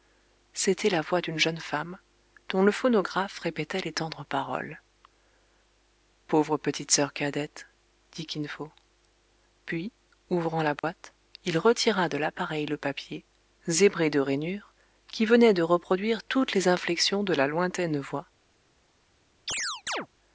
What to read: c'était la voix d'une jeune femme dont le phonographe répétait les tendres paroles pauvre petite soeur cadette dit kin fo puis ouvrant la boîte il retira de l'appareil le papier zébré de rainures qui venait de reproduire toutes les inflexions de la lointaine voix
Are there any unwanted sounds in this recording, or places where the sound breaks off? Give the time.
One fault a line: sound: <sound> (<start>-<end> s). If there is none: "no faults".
sound: dropout (10.8-10.8 s)
sound: chirp (19.5-20.1 s)